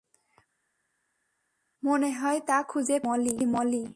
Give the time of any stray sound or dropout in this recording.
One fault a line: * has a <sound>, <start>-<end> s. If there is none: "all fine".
all fine